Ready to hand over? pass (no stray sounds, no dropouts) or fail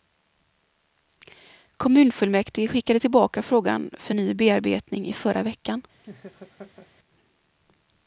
fail